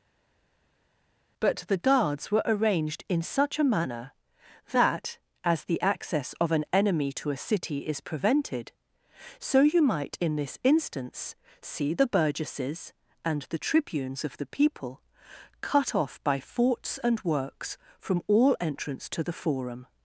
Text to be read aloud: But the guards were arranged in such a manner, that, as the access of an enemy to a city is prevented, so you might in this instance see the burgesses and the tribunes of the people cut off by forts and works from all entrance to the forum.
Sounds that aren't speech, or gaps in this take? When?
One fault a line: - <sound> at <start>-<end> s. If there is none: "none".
none